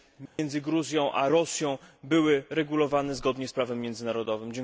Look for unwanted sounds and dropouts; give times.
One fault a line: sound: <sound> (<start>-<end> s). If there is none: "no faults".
sound: dropout (0.3-0.4 s)